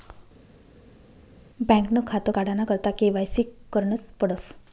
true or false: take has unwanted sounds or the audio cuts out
false